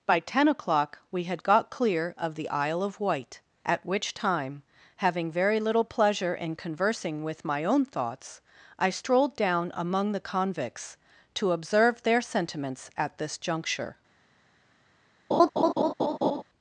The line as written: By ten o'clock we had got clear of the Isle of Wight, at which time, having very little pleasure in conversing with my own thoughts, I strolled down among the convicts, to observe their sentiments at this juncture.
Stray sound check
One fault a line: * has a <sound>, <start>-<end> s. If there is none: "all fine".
* has a laugh, 15.3-16.4 s